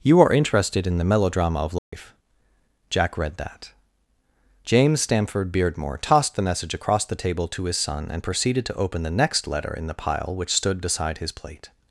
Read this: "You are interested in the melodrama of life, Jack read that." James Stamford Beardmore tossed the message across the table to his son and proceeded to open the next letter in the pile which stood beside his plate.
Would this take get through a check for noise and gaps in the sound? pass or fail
fail